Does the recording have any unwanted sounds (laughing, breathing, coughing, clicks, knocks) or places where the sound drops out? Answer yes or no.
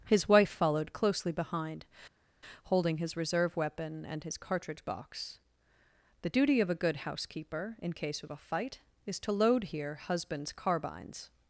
no